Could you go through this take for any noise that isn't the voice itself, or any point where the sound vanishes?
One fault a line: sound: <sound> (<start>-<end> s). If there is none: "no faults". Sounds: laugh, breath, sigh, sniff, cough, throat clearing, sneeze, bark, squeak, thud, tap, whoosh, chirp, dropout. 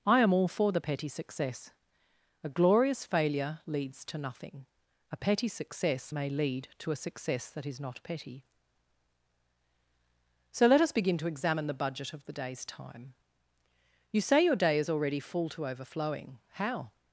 no faults